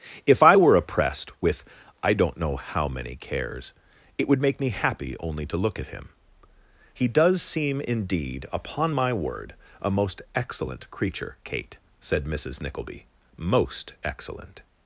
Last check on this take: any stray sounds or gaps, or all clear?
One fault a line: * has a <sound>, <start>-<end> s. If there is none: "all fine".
all fine